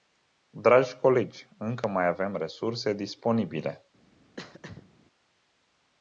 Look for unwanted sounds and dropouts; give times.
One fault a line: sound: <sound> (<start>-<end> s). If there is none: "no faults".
sound: throat clearing (4.4-4.9 s)